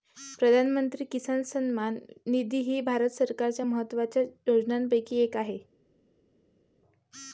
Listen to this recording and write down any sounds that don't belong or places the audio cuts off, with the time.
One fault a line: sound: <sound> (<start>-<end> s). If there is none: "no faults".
no faults